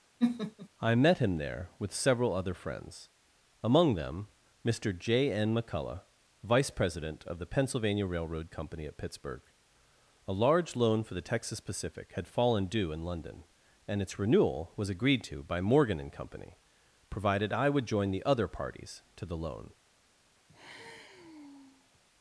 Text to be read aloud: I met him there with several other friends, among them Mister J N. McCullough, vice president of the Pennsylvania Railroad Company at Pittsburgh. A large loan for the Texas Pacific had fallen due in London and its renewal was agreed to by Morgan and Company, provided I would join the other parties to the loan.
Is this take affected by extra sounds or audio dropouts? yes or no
yes